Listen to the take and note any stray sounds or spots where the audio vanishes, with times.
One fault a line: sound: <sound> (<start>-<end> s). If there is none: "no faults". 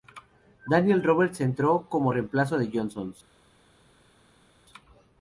no faults